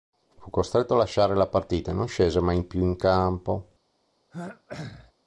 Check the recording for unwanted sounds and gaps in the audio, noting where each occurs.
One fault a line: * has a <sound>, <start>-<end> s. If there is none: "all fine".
* has a throat clearing, 4.3-5.1 s